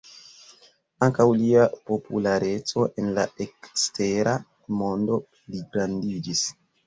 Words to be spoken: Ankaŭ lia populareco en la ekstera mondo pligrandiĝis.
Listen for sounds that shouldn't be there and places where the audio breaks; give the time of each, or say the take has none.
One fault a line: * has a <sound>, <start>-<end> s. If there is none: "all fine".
all fine